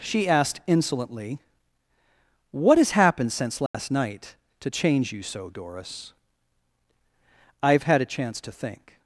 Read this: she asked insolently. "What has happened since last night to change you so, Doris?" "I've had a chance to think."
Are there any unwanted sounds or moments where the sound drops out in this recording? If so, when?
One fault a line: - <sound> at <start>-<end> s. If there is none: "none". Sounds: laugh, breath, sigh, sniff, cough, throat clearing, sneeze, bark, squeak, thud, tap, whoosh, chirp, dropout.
- dropout at 3.7-3.7 s